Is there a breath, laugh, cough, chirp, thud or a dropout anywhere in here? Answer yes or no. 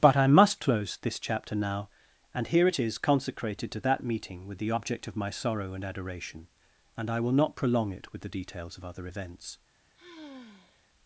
yes